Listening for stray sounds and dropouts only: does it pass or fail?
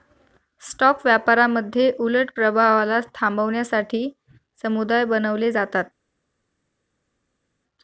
pass